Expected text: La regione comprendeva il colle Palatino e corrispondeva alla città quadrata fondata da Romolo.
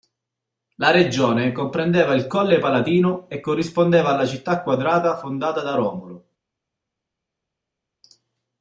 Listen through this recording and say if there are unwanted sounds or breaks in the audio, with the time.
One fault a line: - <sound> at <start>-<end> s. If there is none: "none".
none